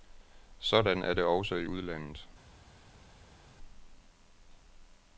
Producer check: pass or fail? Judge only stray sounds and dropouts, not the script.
pass